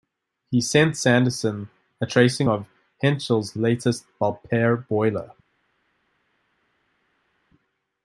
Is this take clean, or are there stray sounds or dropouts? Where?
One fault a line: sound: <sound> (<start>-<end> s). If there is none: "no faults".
no faults